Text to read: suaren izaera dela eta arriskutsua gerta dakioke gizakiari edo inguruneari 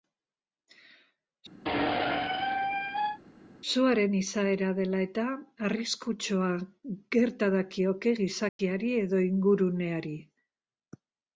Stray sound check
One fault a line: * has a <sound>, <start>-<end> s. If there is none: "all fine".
* has a squeak, 1.6-3.2 s
* has a dropout, 8.5-8.6 s